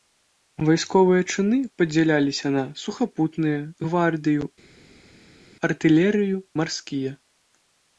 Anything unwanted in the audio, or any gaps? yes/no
no